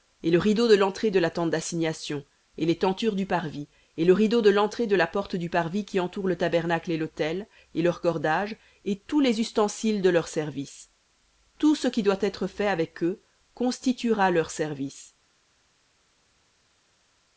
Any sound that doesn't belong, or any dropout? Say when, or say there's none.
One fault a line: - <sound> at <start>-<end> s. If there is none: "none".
none